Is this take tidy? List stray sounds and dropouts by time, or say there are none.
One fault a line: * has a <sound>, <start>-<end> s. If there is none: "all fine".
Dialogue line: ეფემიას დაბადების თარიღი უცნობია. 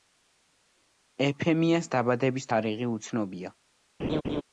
* has a laugh, 4.0-4.4 s